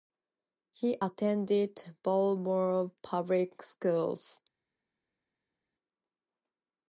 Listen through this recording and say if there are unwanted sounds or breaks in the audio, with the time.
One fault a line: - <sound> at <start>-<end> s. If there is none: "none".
none